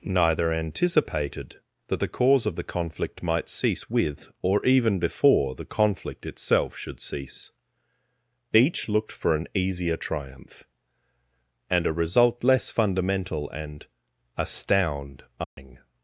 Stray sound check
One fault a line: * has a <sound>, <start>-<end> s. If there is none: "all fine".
* has a dropout, 15.4-15.6 s